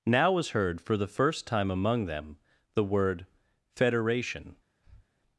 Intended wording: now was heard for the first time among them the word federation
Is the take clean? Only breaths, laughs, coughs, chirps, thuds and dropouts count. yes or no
no